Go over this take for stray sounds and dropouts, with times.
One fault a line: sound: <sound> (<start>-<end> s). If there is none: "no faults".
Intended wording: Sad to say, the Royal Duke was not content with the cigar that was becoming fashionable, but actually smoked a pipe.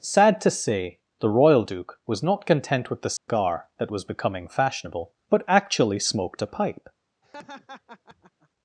sound: dropout (3.2-3.3 s)
sound: laugh (7.2-8.5 s)